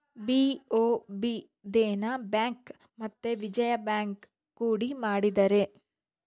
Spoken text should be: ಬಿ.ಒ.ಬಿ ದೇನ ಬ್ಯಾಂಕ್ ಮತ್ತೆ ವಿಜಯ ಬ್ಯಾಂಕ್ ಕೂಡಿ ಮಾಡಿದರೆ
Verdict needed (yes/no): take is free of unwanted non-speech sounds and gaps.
yes